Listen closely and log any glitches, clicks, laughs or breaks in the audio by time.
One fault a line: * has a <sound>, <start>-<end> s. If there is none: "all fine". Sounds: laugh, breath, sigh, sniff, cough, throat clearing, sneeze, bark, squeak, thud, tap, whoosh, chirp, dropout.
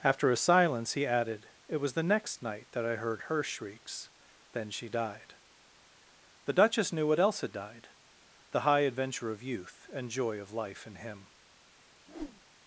* has a whoosh, 12.1-12.4 s